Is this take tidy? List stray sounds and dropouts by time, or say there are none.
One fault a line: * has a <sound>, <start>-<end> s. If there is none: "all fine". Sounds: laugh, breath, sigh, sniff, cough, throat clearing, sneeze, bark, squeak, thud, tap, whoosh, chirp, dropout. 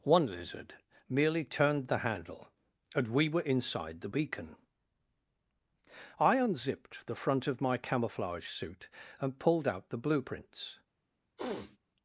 * has a sniff, 11.4-11.8 s